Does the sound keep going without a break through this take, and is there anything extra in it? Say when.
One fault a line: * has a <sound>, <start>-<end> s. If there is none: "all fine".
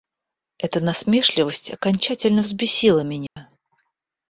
* has a dropout, 3.3-3.4 s